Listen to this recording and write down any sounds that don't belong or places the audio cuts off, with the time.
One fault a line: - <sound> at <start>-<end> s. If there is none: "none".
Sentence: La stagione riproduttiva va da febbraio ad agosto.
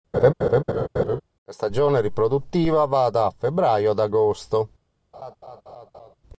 - laugh at 0.1-1.2 s
- laugh at 5.1-6.2 s